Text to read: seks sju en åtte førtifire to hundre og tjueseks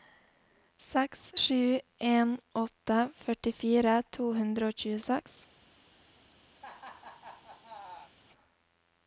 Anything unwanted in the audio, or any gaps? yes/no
yes